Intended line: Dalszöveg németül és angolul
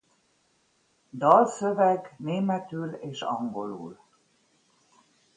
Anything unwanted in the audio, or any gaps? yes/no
no